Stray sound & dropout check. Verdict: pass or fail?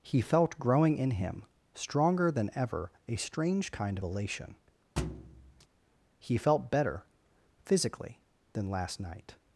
fail